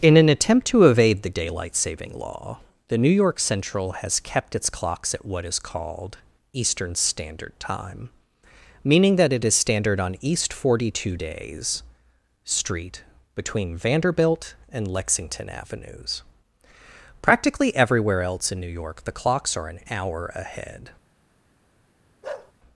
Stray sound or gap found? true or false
true